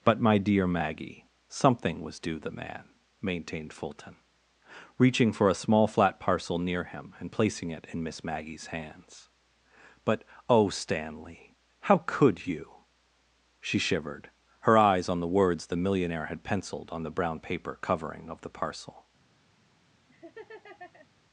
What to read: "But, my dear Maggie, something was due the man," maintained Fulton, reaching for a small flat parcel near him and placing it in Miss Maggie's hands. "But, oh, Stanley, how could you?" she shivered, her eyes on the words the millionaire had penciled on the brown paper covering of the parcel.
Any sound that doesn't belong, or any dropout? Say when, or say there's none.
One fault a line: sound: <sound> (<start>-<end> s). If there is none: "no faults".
sound: laugh (20.1-21.1 s)